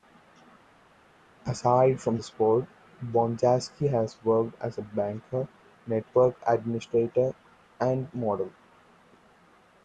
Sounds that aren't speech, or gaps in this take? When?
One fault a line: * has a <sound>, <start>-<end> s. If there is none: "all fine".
all fine